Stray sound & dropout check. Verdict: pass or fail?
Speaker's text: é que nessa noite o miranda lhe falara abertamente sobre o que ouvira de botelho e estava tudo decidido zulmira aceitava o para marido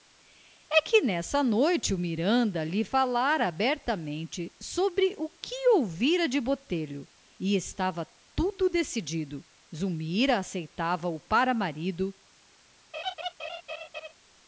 fail